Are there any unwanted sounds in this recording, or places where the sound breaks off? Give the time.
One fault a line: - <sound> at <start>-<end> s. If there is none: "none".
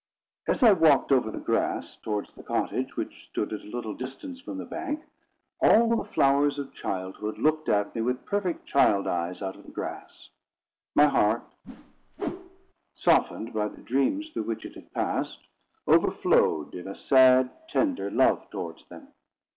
- whoosh at 11.6-12.7 s